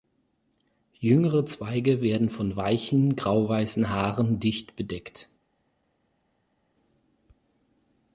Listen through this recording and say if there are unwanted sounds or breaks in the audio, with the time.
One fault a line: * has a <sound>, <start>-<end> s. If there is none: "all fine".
all fine